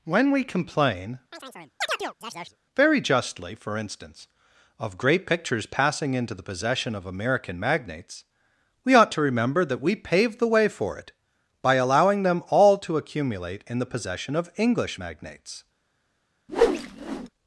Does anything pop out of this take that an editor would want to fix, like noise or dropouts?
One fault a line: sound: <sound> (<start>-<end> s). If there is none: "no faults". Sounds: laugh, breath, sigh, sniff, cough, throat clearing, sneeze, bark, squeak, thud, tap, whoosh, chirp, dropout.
sound: chirp (1.3-2.6 s)
sound: whoosh (16.5-17.3 s)